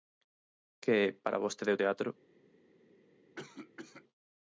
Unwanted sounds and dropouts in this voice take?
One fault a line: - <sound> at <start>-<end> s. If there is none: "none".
- cough at 3.4-4.0 s